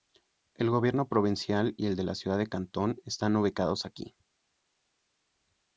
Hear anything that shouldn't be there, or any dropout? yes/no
no